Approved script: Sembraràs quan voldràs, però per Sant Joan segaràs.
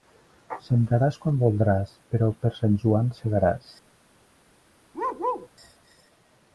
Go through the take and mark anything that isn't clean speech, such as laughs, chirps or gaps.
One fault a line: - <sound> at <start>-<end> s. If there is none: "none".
- bark at 4.9-5.5 s